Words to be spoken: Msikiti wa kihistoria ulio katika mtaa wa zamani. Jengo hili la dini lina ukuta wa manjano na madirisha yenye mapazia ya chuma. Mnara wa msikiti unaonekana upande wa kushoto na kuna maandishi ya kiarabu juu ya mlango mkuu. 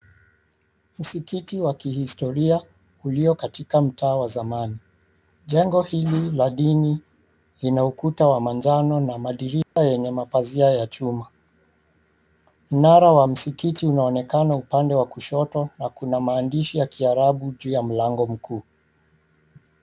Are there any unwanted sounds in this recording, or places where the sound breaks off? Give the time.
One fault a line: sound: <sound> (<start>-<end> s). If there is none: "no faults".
sound: dropout (9.6-9.8 s)